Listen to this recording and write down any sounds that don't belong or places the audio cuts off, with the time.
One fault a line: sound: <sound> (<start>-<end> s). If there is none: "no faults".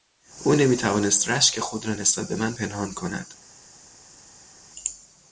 no faults